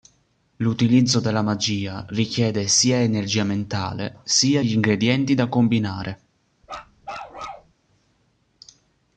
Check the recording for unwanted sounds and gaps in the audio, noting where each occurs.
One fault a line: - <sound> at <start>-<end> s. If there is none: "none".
- bark at 6.6-7.7 s